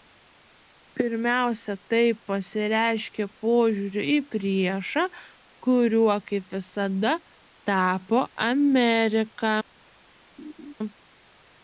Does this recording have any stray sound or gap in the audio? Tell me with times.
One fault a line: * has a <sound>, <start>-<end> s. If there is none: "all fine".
* has a laugh, 10.4-10.7 s